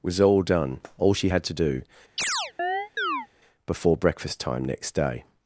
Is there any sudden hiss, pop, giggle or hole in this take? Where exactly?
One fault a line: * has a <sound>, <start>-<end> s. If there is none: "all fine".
* has a chirp, 2.2-3.3 s